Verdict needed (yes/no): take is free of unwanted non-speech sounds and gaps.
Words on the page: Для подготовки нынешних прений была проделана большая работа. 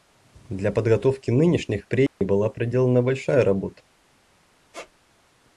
no